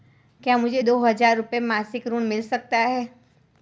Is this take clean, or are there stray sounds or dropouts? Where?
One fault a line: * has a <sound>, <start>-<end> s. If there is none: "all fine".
all fine